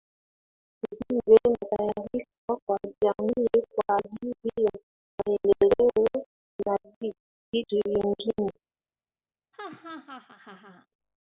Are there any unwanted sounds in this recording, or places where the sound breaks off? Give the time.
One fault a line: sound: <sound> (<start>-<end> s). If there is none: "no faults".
sound: laugh (9.5-10.9 s)